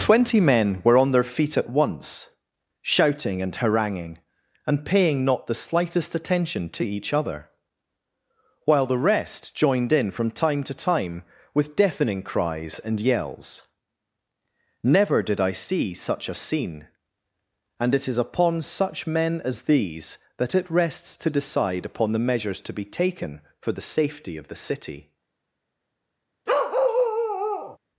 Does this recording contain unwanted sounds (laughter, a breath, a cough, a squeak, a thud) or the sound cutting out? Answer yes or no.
yes